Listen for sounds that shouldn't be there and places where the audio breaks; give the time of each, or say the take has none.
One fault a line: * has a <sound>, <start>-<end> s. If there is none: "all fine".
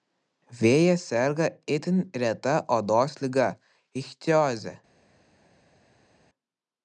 all fine